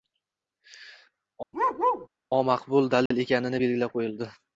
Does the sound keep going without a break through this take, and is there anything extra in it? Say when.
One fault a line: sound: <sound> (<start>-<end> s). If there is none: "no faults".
sound: bark (1.5-2.1 s)
sound: dropout (3.1-3.1 s)